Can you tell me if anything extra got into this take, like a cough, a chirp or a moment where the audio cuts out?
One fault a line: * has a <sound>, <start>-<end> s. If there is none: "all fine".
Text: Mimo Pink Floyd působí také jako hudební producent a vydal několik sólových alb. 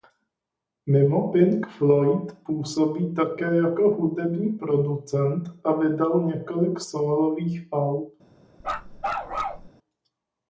* has a bark, 8.6-9.7 s